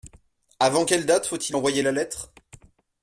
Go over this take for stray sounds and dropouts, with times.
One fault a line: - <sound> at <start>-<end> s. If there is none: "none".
none